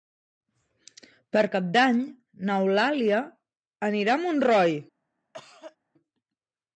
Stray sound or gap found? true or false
true